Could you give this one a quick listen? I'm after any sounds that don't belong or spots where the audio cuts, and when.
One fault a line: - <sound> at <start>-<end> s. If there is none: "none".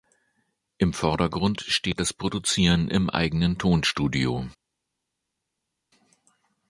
none